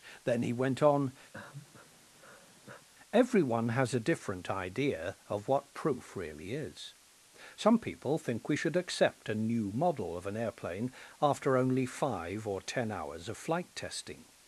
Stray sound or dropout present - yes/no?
yes